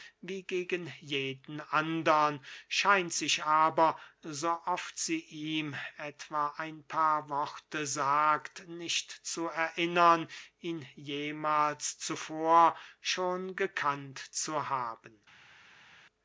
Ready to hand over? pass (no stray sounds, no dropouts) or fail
pass